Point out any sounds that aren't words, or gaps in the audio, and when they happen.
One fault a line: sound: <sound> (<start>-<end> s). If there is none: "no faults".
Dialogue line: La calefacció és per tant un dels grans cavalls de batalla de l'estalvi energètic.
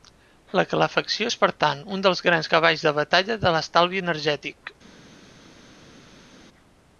no faults